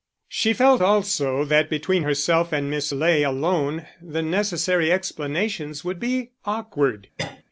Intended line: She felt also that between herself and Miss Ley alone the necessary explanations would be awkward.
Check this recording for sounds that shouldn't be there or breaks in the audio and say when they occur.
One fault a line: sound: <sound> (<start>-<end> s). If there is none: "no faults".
sound: cough (7.2-7.4 s)